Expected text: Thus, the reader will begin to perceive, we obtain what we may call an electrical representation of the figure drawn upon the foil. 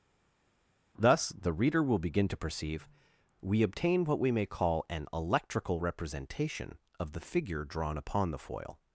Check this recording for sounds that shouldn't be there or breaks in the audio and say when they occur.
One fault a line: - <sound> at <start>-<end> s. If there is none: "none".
none